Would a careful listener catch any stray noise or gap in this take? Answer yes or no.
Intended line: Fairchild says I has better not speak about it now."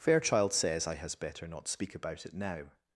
no